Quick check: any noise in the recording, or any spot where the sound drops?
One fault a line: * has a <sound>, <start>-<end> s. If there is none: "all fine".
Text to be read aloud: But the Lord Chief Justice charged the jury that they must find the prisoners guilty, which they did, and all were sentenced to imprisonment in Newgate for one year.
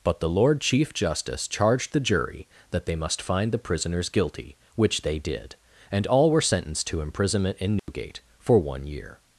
* has a dropout, 7.8-7.9 s